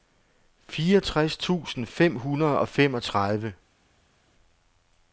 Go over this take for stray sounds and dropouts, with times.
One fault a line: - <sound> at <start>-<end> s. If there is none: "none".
none